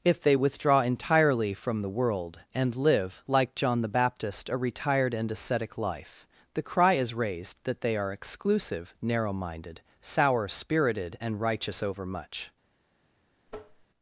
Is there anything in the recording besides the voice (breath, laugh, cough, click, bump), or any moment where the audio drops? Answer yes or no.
yes